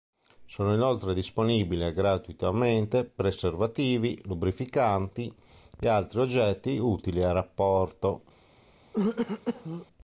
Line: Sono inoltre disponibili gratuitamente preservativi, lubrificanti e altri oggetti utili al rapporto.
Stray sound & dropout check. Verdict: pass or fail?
fail